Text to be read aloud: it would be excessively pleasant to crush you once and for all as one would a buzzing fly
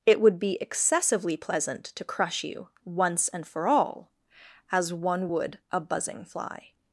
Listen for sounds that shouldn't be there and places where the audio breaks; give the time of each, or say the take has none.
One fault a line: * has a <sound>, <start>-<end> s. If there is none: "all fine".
all fine